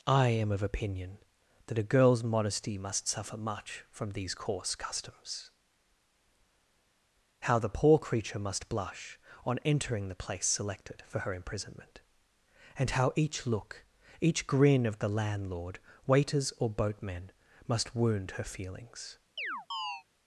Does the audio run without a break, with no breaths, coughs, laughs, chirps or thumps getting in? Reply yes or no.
no